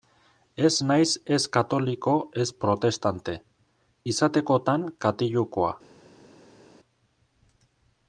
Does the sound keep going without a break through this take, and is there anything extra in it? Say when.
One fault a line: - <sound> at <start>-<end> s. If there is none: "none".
none